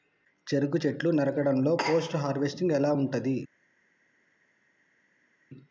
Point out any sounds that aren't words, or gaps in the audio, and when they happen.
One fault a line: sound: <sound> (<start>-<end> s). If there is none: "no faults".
no faults